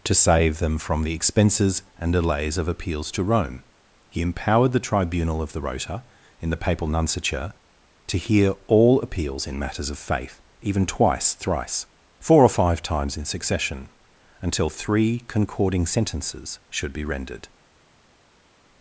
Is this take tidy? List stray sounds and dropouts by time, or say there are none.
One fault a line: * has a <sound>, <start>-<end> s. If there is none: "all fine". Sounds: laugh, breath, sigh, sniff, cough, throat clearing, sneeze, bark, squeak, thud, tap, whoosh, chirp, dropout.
all fine